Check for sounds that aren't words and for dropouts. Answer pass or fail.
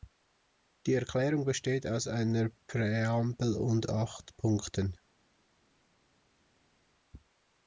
pass